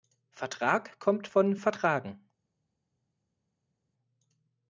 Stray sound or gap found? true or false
false